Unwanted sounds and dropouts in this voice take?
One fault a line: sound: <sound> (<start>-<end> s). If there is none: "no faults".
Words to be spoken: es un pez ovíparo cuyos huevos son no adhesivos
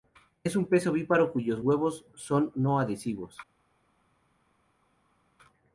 no faults